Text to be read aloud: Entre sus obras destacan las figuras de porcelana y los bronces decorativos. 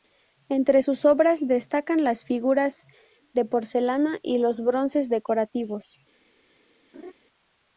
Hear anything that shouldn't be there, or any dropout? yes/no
yes